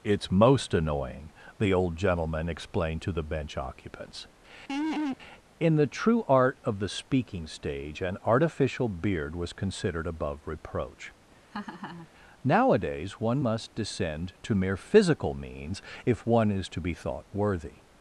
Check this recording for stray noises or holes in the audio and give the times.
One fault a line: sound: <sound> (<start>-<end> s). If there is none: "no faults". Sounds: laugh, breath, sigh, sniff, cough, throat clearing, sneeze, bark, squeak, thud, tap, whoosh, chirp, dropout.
sound: laugh (4.7-5.2 s)
sound: laugh (11.5-12.1 s)